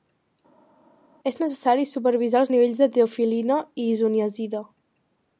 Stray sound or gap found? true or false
false